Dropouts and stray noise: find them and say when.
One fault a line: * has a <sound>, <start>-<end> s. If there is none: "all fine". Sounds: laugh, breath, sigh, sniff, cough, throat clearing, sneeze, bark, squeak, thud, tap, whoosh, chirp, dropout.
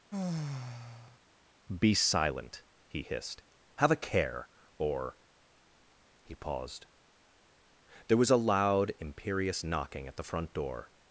* has a sigh, 0.1-1.2 s